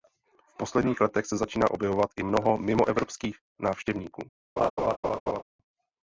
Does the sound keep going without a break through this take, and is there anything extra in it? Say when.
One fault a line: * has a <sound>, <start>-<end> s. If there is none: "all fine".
* has a laugh, 4.6-5.4 s